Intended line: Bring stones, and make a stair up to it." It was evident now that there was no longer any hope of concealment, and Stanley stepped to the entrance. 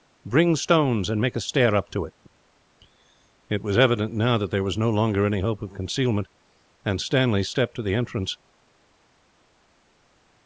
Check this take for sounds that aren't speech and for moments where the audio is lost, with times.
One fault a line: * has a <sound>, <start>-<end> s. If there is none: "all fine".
all fine